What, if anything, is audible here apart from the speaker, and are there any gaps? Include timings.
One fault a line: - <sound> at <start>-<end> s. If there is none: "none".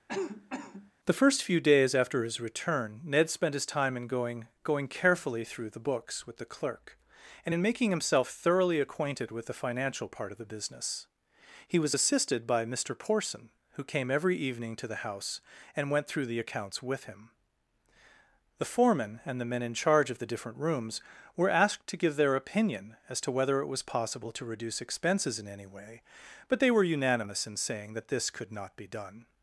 - cough at 0.1-0.9 s